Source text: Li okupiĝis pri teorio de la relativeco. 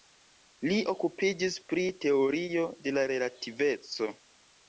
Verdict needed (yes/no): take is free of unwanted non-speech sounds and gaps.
yes